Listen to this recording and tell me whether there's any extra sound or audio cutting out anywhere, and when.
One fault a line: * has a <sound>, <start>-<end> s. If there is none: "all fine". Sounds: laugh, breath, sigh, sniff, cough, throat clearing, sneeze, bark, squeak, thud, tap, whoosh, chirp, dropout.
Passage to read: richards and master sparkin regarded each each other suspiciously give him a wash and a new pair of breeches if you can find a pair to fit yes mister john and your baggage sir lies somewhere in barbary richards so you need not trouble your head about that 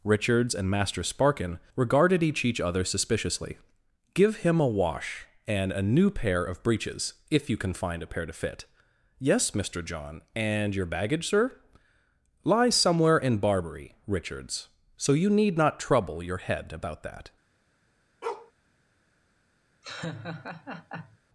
* has a bark, 18.2-18.5 s
* has a laugh, 19.8-21.2 s